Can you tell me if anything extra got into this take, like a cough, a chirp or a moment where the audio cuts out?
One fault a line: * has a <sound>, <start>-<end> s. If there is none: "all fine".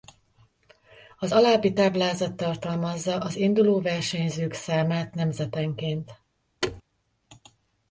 * has a thud, 6.6-6.8 s